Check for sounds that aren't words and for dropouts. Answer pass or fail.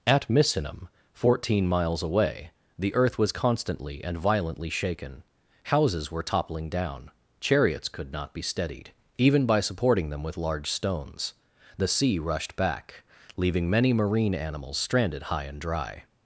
pass